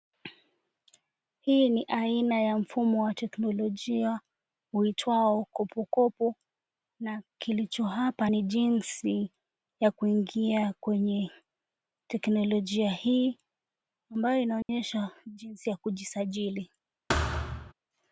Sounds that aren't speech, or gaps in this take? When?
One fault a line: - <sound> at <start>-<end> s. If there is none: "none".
- dropout at 14.6-14.7 s
- thud at 17.1-17.7 s